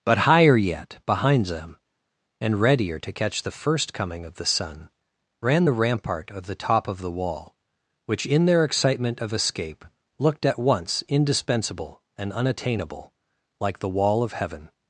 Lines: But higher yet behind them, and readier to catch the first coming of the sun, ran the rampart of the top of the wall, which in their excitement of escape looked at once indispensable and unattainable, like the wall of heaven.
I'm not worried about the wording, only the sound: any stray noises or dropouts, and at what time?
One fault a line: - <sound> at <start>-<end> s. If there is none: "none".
none